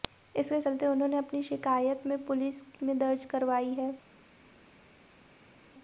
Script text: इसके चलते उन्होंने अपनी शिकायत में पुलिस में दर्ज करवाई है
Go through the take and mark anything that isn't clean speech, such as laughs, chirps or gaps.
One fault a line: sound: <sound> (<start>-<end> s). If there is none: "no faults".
no faults